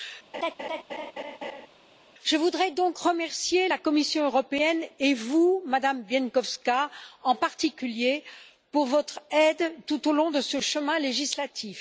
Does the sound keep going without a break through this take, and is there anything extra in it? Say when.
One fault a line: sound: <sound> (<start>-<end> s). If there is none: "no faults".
sound: laugh (0.3-1.7 s)